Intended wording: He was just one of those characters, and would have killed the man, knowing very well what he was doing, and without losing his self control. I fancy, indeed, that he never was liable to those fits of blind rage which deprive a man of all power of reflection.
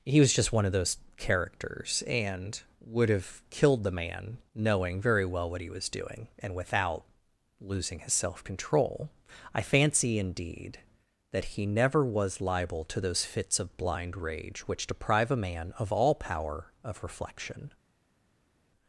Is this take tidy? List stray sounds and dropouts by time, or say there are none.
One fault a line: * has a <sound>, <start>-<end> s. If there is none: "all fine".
all fine